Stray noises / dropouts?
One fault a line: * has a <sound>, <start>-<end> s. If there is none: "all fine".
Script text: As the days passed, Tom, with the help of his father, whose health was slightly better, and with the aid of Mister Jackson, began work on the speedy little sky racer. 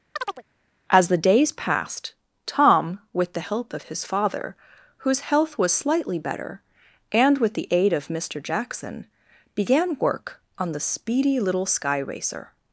* has a chirp, 0.2-0.4 s